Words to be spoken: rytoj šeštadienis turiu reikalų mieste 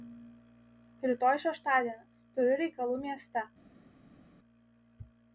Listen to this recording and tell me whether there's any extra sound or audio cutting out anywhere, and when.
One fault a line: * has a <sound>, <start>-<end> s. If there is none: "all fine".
all fine